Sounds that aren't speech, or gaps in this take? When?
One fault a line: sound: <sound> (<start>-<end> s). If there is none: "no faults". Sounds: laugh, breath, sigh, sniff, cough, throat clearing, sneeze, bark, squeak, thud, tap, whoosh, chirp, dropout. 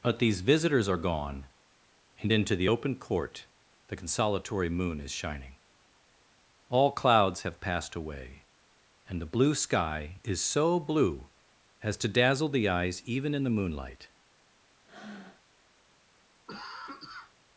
sound: breath (14.8-15.4 s)
sound: cough (16.5-17.3 s)